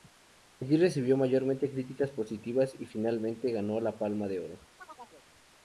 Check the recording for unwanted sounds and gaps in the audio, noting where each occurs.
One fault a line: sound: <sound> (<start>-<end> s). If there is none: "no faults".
sound: chirp (4.8-5.3 s)